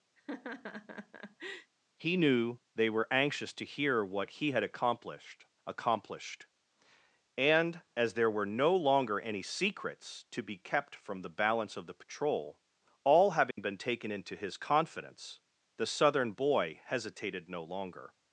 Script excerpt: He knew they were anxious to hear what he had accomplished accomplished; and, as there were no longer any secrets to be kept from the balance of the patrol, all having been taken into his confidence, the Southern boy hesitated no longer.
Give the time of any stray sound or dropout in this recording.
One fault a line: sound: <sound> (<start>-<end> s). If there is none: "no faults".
sound: laugh (0.2-1.7 s)
sound: dropout (13.5-13.6 s)